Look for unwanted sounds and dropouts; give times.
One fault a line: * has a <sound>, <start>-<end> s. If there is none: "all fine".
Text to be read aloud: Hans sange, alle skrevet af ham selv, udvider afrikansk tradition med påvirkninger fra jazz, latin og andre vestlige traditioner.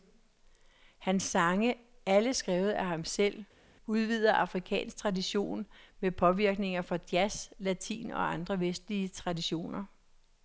all fine